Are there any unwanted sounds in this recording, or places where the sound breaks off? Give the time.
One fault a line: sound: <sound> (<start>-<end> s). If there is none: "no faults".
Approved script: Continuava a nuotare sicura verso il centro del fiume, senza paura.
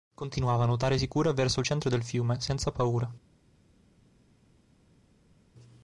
no faults